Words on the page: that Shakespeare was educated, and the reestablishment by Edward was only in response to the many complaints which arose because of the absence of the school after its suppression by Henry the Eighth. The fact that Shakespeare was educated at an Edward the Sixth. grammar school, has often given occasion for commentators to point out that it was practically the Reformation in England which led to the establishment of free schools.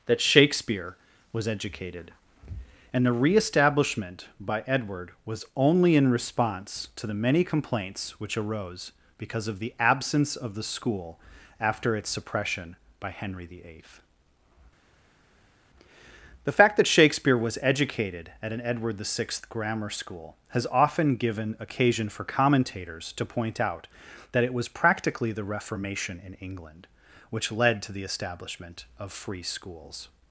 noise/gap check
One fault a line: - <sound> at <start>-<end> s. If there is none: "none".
none